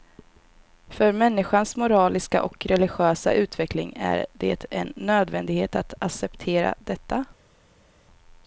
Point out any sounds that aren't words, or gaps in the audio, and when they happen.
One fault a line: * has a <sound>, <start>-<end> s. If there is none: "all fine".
all fine